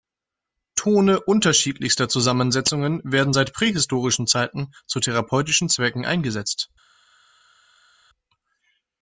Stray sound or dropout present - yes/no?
no